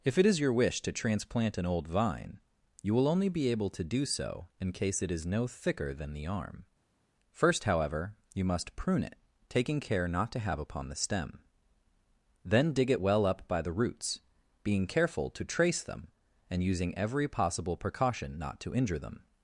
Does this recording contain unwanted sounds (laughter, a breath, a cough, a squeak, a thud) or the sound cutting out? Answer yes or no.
no